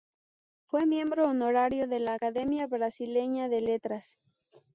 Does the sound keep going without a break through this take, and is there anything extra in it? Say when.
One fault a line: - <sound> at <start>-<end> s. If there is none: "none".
none